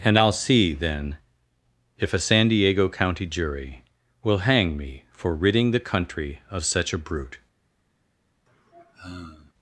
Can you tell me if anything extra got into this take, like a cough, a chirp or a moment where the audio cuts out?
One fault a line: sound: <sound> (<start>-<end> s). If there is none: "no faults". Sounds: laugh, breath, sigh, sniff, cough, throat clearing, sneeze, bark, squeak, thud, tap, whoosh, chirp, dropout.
sound: sigh (8.5-9.5 s)